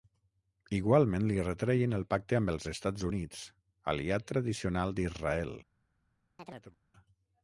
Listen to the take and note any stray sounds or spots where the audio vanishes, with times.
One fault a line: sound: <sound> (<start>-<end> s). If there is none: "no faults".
sound: chirp (6.4-6.8 s)